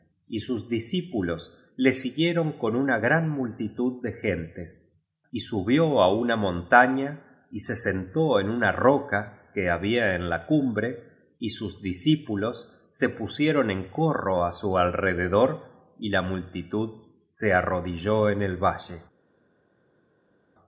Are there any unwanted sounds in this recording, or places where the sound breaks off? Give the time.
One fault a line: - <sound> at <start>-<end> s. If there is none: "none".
none